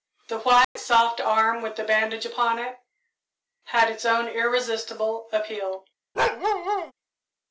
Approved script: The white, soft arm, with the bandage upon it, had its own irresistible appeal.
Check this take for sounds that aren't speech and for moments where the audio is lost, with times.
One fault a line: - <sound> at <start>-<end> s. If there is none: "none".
- dropout at 0.6-0.8 s
- bark at 6.1-6.9 s